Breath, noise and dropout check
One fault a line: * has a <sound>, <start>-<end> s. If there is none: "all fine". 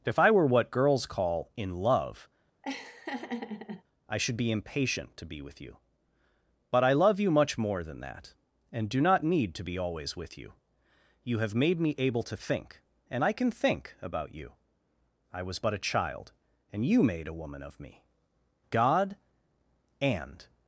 * has a laugh, 2.6-3.8 s